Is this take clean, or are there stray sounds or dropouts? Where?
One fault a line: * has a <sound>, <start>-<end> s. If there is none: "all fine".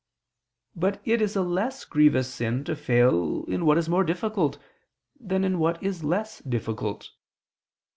all fine